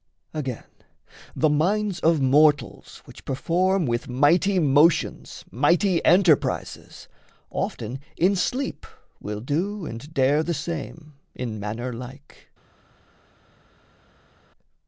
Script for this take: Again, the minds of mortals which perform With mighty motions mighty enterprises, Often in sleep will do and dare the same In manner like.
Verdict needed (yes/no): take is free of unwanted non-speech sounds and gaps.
yes